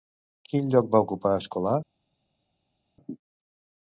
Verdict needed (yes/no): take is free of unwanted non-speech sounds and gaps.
yes